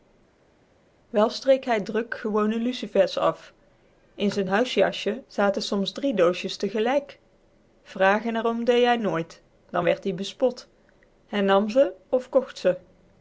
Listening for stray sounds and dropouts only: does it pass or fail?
pass